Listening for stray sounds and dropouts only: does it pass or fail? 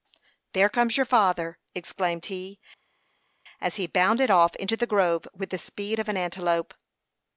pass